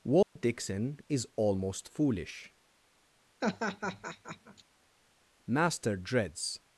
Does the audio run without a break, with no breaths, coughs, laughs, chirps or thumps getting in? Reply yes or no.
no